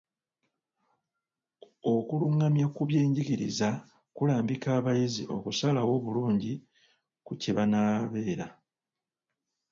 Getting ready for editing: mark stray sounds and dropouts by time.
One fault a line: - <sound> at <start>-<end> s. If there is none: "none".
none